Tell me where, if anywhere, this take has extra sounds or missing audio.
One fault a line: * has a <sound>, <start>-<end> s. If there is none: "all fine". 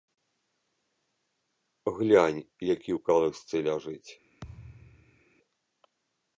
* has a thud, 4.4-5.2 s